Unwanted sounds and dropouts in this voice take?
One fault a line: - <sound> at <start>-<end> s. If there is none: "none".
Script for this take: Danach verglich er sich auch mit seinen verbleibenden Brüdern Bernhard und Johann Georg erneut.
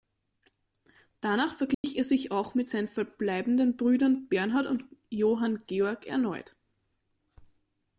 - dropout at 1.7-1.8 s